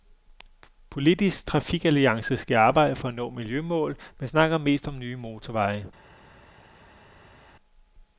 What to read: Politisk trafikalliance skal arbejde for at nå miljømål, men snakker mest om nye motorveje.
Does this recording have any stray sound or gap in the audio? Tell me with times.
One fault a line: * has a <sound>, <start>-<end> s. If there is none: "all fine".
all fine